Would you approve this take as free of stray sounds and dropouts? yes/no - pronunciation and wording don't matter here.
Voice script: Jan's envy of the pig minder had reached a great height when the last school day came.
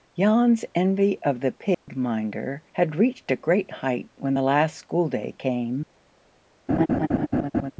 no